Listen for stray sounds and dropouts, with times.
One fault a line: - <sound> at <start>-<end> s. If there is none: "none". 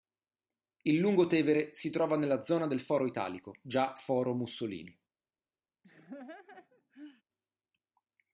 - laugh at 5.8-7.2 s